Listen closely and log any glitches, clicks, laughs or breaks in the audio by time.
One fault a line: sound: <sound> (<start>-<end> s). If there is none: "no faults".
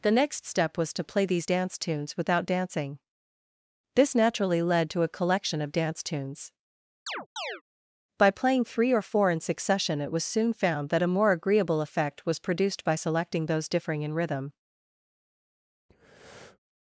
sound: chirp (7.1-7.6 s)
sound: breath (15.9-16.6 s)